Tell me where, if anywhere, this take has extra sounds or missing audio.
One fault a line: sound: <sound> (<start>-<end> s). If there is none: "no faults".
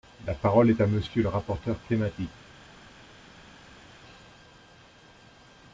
no faults